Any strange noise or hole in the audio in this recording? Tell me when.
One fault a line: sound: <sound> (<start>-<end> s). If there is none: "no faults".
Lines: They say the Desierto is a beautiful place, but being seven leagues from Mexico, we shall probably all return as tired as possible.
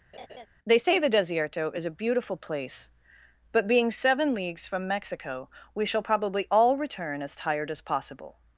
sound: laugh (0.1-0.5 s)